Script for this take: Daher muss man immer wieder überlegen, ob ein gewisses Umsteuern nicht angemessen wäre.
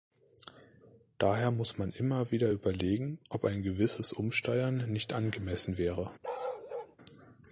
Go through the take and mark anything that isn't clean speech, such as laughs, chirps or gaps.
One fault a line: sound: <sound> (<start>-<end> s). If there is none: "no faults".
sound: bark (6.2-7.0 s)